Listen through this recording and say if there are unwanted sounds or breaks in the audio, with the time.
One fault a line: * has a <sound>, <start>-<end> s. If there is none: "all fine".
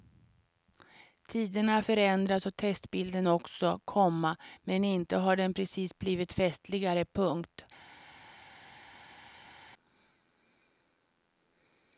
all fine